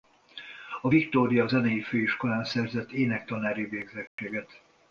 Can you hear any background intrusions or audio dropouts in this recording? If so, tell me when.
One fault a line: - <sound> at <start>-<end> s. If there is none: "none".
- dropout at 4.1-4.2 s